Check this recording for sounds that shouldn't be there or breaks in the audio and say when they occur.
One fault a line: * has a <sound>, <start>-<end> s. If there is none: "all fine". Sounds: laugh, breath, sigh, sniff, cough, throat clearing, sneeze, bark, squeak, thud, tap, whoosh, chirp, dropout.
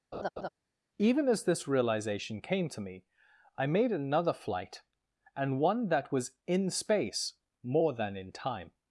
* has a laugh, 0.1-0.5 s